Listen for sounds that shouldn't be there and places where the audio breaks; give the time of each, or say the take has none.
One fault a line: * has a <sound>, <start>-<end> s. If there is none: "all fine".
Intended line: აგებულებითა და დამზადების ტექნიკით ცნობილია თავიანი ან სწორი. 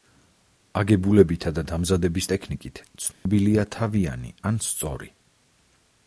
* has a dropout, 3.1-3.3 s